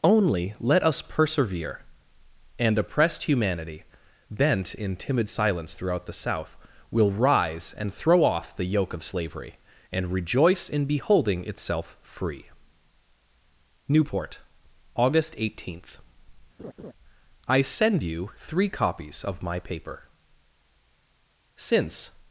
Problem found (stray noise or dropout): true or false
true